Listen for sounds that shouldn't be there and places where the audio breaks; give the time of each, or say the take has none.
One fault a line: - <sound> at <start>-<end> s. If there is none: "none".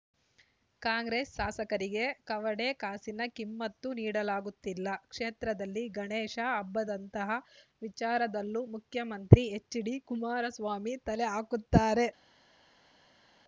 none